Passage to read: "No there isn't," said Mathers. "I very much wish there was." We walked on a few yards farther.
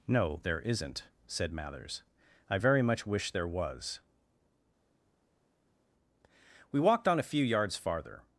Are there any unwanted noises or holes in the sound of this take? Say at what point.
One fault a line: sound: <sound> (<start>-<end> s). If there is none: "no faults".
no faults